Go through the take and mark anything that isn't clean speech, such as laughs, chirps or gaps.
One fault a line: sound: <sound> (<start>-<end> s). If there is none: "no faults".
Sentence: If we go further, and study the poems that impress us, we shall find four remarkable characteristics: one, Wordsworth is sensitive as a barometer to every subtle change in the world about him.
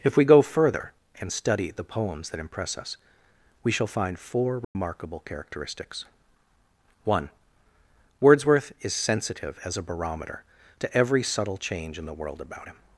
sound: dropout (4.6-4.8 s)